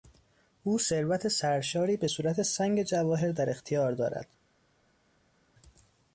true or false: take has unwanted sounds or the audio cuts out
false